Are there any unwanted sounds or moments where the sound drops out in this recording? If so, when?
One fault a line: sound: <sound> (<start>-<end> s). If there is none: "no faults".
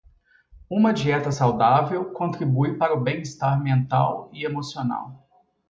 no faults